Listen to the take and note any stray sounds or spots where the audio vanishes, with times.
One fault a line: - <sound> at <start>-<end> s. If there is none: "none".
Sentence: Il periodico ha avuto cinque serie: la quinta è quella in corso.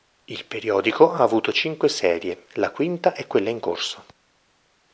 none